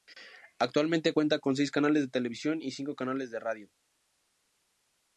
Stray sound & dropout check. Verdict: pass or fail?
pass